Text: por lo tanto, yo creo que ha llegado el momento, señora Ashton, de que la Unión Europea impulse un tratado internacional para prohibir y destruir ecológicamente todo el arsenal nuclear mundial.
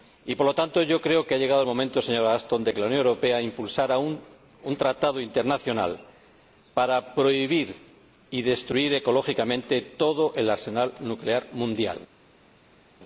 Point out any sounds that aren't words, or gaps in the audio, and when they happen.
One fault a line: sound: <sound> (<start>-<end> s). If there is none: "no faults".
no faults